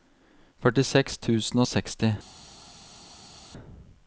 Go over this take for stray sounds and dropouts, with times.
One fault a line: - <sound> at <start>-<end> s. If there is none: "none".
none